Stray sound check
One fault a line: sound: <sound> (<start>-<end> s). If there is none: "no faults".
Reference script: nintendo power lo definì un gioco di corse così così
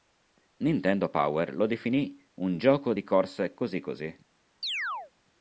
sound: chirp (4.6-5.1 s)